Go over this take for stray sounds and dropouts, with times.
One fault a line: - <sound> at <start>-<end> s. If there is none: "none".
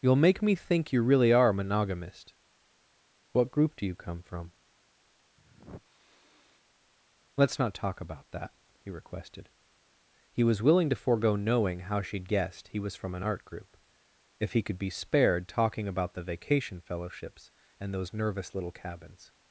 - sniff at 5.4-6.6 s